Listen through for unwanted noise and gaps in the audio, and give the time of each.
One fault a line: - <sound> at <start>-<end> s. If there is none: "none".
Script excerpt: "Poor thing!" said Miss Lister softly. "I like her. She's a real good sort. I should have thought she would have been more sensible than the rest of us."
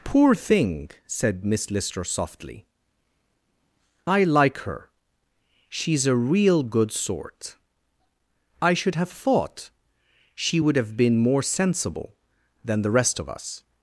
none